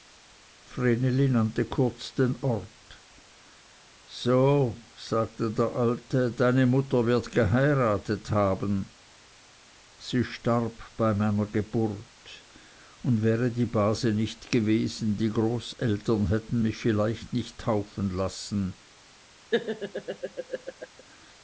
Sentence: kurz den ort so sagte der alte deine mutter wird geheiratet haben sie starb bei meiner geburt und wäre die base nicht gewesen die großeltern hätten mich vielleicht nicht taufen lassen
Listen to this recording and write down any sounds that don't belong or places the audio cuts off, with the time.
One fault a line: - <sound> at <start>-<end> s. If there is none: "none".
- laugh at 19.5-21.0 s